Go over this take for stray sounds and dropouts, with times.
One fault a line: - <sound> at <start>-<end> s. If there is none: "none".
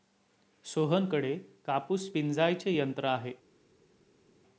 none